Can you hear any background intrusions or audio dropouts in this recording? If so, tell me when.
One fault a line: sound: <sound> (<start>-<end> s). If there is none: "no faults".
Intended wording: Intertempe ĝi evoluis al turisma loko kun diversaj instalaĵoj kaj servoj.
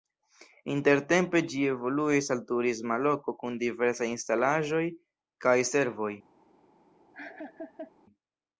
sound: laugh (7.1-7.9 s)